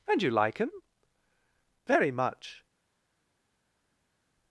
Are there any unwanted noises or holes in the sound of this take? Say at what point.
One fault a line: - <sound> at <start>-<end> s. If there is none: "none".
none